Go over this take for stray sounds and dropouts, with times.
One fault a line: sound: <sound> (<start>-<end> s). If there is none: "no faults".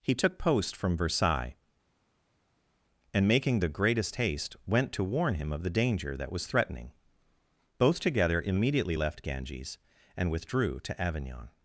no faults